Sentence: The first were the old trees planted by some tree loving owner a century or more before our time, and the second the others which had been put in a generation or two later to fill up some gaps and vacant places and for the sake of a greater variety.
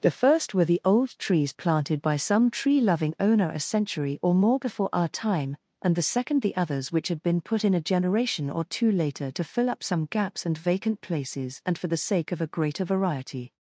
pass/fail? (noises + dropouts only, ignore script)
pass